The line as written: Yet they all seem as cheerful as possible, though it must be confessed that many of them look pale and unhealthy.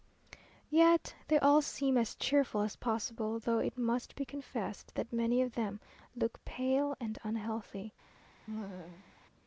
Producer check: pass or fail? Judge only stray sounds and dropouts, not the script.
fail